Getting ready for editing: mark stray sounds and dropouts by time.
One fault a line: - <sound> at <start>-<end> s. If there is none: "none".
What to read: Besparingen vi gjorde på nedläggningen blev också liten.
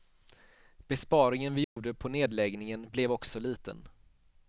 - dropout at 1.6-1.8 s